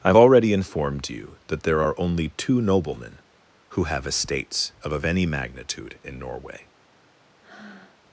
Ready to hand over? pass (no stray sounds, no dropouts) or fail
fail